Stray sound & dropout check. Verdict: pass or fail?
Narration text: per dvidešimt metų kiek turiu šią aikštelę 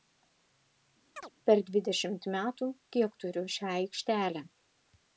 fail